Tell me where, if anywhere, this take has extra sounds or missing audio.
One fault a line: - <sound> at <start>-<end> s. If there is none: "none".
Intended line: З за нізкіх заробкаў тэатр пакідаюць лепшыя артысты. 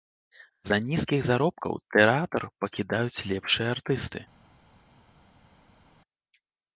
none